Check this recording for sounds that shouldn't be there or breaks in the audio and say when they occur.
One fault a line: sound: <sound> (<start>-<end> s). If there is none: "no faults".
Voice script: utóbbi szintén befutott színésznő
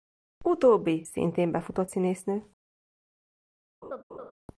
sound: laugh (3.8-4.3 s)